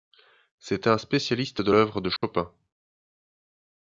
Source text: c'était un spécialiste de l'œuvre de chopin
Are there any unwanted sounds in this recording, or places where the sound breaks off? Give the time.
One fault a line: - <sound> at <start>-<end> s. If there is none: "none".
- dropout at 2.2-2.2 s